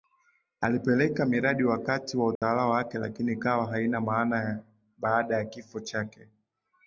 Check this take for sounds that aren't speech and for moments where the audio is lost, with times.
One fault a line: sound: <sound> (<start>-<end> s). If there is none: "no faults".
sound: dropout (2.4-2.4 s)